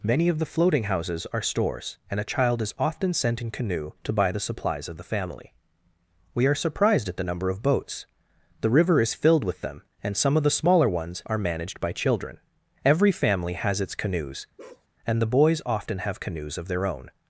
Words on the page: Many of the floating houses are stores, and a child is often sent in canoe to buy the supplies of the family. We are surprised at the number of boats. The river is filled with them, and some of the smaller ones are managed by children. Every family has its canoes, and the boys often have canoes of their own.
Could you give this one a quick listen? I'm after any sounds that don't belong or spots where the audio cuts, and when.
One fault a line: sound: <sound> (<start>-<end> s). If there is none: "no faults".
sound: bark (14.6-14.9 s)